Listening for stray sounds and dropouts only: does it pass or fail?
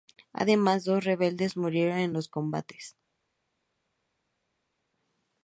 pass